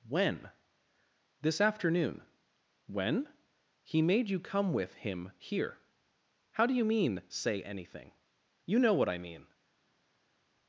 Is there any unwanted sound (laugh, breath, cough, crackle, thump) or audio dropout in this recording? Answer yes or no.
no